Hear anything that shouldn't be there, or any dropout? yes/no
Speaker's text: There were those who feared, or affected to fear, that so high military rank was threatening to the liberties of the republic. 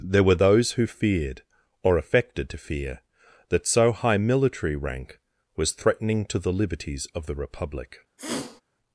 yes